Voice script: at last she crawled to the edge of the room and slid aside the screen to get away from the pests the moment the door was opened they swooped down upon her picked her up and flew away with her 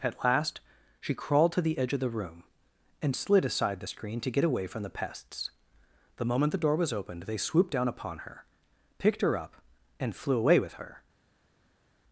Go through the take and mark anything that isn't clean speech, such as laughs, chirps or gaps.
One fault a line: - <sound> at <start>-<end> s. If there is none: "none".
none